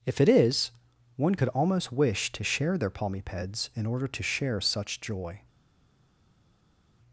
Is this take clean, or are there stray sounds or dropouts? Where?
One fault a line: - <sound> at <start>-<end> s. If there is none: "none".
none